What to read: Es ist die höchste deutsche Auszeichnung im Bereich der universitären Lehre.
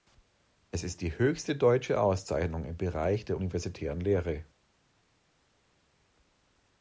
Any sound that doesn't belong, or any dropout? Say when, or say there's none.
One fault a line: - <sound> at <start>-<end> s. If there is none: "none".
none